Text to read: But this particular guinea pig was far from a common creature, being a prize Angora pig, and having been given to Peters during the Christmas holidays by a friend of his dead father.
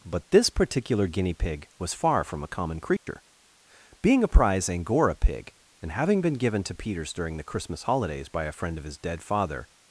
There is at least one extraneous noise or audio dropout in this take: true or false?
true